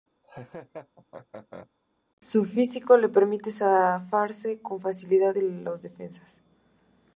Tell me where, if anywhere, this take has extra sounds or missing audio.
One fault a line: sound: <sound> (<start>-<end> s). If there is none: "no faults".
sound: laugh (0.2-1.7 s)